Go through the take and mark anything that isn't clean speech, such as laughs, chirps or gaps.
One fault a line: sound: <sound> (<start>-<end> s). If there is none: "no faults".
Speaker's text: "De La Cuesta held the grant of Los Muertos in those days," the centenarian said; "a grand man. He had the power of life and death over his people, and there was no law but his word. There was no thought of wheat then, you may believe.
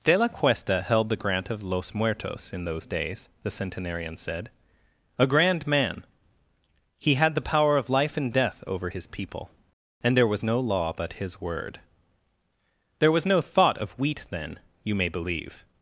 no faults